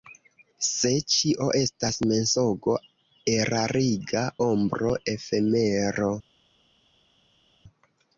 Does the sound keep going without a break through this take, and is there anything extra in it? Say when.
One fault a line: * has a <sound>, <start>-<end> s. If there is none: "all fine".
all fine